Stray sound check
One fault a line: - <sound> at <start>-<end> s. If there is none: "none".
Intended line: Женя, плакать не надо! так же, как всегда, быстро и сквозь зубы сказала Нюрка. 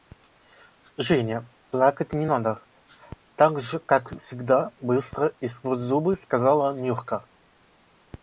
none